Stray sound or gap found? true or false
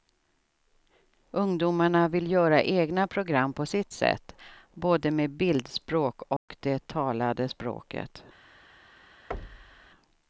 true